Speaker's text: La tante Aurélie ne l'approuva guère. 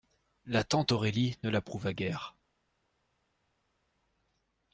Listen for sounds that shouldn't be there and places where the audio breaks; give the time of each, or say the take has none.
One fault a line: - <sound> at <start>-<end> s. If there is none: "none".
none